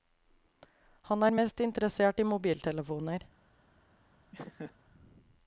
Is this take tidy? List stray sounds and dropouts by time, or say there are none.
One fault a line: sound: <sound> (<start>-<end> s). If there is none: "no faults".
sound: laugh (4.3-4.8 s)